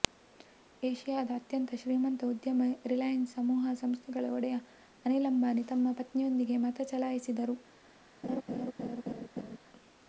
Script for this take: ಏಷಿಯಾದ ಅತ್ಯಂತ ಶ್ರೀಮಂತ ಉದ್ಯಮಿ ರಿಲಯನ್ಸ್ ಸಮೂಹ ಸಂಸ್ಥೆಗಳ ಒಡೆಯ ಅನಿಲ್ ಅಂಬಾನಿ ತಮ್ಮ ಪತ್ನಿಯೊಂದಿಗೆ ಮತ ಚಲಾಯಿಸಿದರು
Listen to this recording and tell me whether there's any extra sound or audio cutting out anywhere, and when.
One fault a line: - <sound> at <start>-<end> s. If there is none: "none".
- laugh at 8.2-9.6 s